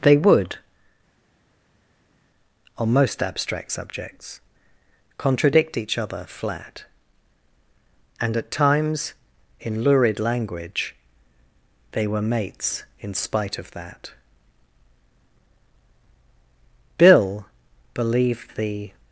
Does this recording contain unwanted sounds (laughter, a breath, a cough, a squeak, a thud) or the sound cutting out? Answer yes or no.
no